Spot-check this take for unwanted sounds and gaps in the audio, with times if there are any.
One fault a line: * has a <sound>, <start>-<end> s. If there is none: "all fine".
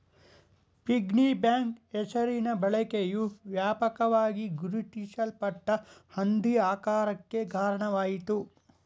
all fine